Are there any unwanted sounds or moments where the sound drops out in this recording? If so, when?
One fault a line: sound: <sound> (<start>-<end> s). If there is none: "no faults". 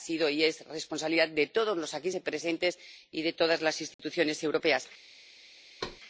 sound: dropout (3.9-4.0 s)
sound: thud (5.8-6.0 s)